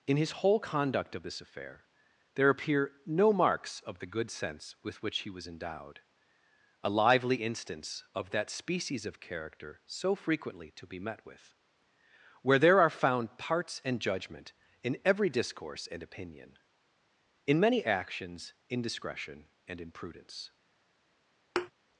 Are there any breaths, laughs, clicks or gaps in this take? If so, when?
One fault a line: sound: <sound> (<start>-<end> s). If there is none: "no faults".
sound: thud (21.6-21.7 s)